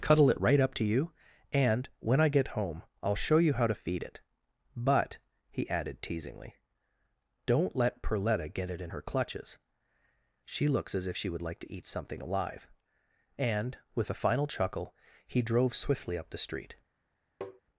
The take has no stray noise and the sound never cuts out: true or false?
false